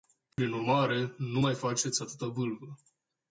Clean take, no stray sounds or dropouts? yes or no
no